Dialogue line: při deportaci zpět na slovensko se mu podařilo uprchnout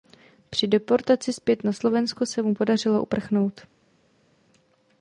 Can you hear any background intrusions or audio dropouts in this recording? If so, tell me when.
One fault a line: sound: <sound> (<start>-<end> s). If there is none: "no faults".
no faults